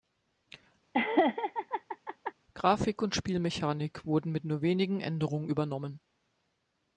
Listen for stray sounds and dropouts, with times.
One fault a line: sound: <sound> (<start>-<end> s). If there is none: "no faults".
sound: laugh (0.9-2.3 s)